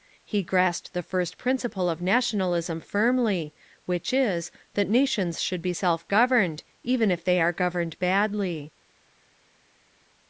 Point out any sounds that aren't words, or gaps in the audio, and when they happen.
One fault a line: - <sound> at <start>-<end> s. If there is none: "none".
none